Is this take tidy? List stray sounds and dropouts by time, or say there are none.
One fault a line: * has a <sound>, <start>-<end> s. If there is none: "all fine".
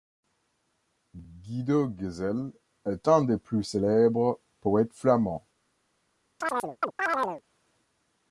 * has a chirp, 6.4-7.4 s